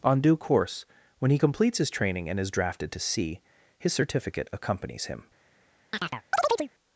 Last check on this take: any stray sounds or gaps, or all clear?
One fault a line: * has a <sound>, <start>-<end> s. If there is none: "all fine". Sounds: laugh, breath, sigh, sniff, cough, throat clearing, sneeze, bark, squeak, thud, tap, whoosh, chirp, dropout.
* has a chirp, 5.9-6.7 s